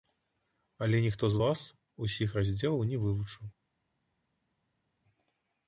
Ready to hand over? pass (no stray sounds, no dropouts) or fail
pass